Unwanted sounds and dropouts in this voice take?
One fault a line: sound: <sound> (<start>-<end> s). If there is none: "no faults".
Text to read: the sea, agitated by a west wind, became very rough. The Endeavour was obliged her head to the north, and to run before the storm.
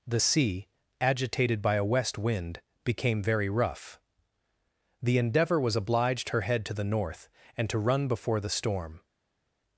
no faults